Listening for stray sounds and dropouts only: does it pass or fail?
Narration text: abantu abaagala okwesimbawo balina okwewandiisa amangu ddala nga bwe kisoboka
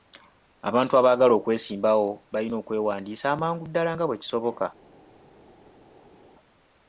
pass